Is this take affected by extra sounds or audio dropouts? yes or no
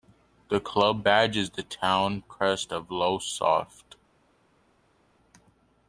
no